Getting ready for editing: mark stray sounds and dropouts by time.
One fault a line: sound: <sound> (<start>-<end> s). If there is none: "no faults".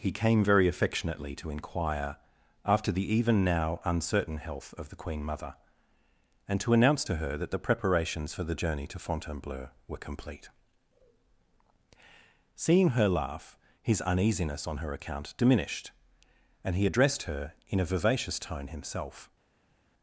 no faults